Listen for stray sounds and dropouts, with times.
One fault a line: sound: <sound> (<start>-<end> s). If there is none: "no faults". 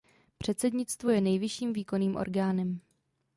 no faults